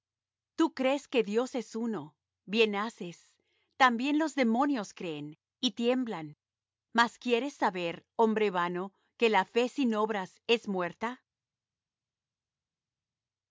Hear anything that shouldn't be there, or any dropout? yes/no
no